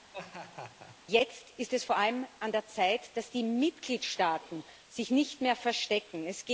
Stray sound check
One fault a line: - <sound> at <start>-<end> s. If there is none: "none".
- laugh at 0.1-1.0 s